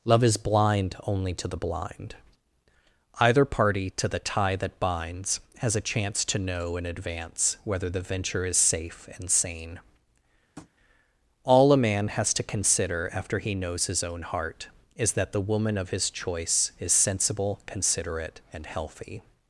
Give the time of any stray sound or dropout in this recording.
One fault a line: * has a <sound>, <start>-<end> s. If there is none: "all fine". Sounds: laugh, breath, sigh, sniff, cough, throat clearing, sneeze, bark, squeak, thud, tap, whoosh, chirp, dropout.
* has a tap, 10.6-10.7 s